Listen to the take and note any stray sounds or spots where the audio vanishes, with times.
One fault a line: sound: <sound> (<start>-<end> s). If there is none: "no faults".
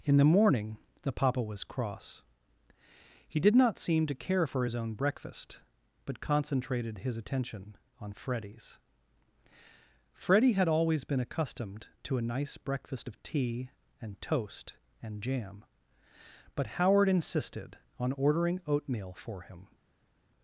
no faults